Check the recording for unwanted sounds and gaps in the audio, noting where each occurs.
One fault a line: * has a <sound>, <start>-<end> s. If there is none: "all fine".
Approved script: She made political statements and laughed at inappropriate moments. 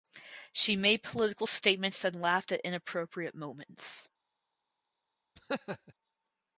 * has a laugh, 5.4-5.9 s